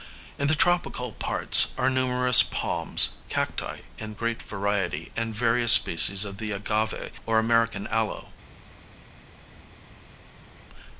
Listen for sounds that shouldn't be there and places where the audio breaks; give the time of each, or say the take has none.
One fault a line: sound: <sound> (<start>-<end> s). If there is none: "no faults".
no faults